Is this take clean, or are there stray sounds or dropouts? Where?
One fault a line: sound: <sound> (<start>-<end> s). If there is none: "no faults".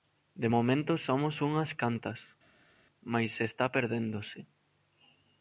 no faults